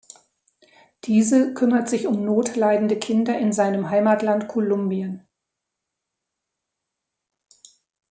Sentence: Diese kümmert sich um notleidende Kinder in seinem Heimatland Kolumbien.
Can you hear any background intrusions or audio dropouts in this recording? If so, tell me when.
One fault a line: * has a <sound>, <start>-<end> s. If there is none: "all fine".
all fine